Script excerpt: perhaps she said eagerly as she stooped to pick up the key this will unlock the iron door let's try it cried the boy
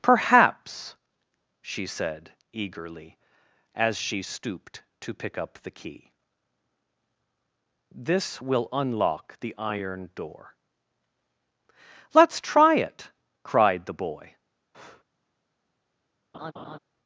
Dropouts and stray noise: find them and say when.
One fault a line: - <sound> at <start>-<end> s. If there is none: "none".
- breath at 14.7-15.0 s
- laugh at 16.3-16.8 s